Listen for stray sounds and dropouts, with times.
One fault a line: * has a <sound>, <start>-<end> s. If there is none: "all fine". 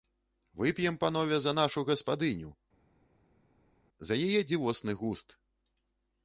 all fine